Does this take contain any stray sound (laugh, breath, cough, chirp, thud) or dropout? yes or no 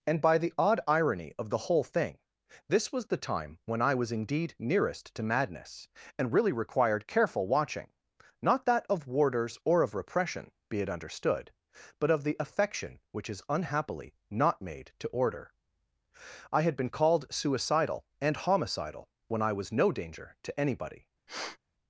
yes